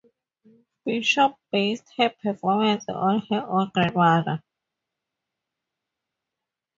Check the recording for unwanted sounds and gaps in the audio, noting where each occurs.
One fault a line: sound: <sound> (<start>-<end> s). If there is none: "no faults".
no faults